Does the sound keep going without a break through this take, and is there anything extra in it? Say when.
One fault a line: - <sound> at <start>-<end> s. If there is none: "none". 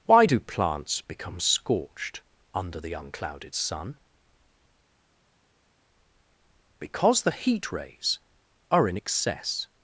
none